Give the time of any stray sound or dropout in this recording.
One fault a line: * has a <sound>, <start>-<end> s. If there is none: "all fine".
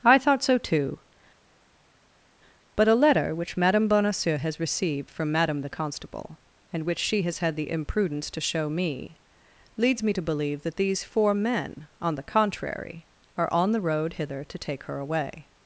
all fine